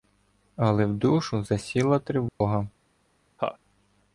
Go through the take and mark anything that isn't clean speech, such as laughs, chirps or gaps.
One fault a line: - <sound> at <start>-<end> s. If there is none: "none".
- dropout at 2.3-2.4 s
- laugh at 3.4-3.6 s